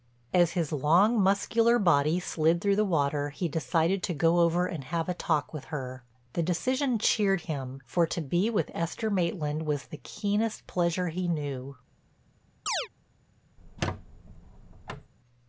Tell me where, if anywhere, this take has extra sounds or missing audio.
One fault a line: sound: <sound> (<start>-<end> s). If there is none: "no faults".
sound: chirp (12.7-12.9 s)
sound: squeak (13.6-15.1 s)